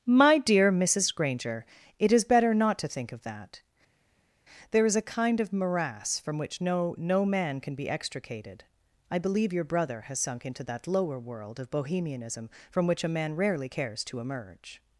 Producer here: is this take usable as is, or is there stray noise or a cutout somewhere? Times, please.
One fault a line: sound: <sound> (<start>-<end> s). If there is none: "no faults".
no faults